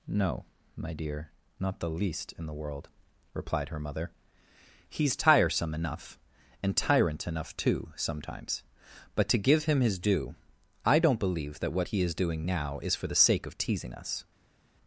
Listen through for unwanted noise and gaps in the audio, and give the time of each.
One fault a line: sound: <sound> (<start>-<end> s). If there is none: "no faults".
no faults